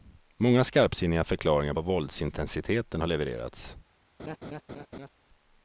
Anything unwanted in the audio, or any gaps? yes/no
yes